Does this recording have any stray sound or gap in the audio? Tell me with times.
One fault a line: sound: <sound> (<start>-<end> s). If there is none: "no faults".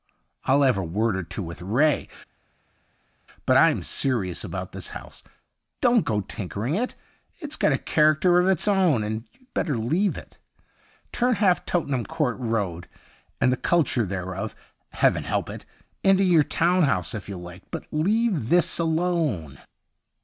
no faults